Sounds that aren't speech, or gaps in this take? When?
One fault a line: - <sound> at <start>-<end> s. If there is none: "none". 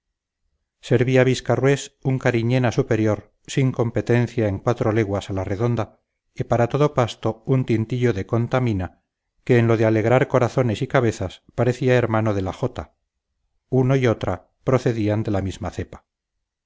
none